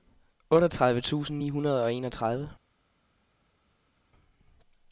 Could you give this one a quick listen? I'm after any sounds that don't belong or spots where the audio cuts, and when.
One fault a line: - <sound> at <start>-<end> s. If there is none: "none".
none